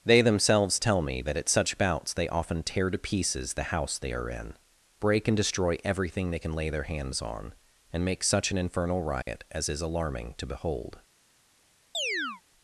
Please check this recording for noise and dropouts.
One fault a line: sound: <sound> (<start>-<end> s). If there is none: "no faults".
sound: dropout (9.2-9.3 s)
sound: chirp (11.9-12.4 s)